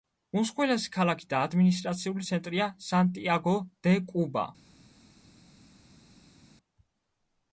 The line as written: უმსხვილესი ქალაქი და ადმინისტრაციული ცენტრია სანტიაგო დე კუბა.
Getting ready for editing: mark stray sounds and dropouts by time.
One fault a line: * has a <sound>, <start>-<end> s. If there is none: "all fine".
all fine